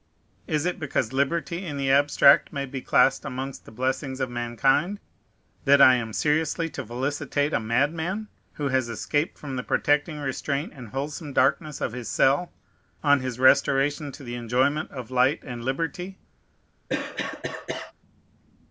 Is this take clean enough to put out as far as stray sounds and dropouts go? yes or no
no